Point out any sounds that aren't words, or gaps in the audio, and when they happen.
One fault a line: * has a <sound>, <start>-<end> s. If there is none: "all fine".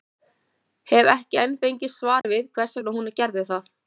* has a dropout, 2.2-2.2 s